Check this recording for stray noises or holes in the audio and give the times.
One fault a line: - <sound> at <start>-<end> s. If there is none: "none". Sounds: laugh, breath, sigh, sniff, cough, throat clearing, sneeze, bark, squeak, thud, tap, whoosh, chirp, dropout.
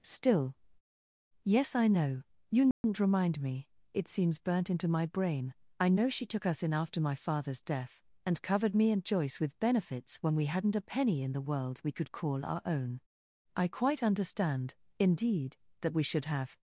- dropout at 2.7-2.8 s